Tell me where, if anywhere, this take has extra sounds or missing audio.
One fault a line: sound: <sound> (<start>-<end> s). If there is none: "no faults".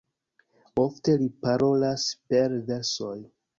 no faults